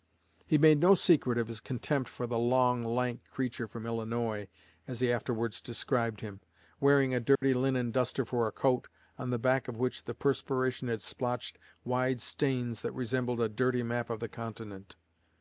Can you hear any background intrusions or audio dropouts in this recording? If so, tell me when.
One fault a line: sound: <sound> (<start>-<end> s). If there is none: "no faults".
sound: dropout (7.3-7.4 s)